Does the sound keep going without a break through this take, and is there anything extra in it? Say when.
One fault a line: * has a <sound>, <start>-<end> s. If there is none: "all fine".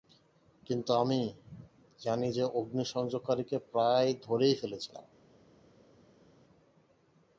all fine